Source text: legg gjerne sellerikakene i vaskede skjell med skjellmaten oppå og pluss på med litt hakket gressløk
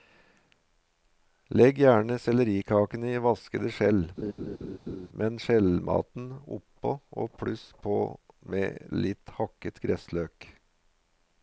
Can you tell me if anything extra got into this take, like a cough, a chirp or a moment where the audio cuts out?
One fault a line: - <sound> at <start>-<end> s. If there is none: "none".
- laugh at 4.2-5.1 s